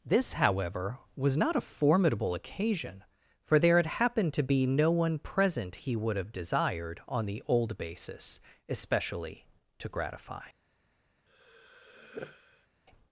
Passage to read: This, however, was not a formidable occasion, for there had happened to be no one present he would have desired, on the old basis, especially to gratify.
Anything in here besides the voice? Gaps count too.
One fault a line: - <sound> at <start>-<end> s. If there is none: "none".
- sigh at 11.3-12.7 s